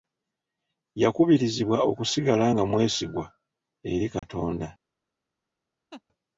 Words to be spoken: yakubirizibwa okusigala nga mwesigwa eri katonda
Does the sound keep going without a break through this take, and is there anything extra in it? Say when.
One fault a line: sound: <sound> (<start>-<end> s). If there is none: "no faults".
sound: dropout (4.2-4.2 s)
sound: laugh (5.9-6.0 s)